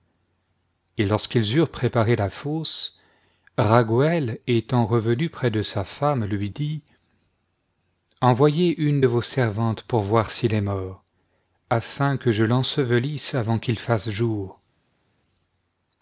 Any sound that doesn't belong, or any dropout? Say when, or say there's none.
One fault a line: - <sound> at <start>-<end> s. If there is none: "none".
none